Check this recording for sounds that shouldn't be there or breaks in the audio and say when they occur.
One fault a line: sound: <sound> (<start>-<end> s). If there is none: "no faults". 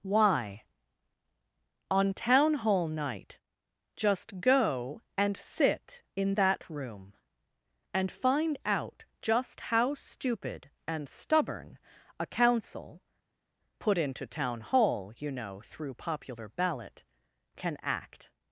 no faults